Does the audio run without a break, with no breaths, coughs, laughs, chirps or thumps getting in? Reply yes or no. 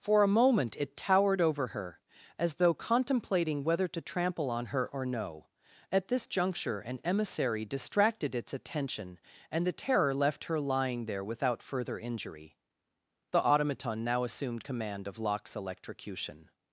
yes